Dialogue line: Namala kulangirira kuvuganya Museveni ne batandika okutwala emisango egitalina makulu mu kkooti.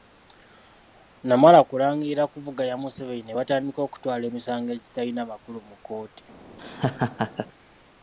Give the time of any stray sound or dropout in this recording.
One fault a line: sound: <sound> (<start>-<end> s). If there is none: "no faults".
sound: laugh (6.6-7.5 s)